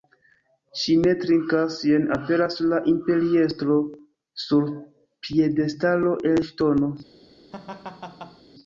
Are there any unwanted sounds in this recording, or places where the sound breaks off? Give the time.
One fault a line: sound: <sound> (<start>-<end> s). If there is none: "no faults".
sound: laugh (7.5-8.4 s)